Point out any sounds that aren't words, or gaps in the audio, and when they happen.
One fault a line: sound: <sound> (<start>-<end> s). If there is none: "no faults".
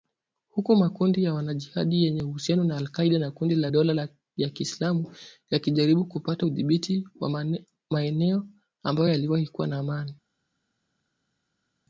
no faults